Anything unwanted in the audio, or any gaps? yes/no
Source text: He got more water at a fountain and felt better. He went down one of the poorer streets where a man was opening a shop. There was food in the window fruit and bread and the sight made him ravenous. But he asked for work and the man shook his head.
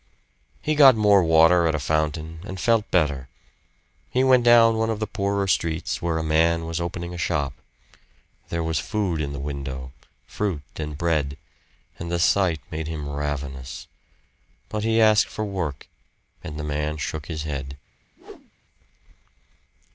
yes